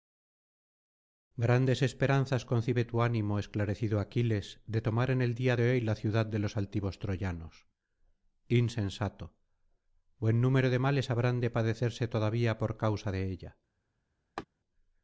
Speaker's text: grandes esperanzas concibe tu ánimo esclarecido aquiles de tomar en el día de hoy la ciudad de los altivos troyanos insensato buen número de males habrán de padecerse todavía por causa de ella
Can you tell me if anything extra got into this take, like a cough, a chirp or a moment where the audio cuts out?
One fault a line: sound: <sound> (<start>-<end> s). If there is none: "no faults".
sound: laugh (14.4-14.5 s)